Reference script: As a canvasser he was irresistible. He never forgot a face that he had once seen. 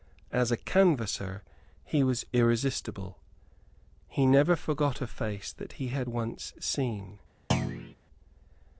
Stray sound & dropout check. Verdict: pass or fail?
fail